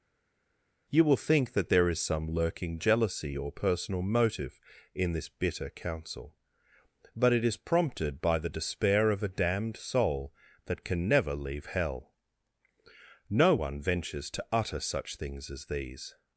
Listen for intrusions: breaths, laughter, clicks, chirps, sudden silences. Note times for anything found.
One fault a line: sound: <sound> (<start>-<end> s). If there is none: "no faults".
no faults